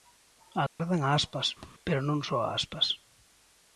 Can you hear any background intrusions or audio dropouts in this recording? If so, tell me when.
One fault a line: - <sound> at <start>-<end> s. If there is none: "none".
- dropout at 0.7-0.8 s
- thud at 1.6-1.7 s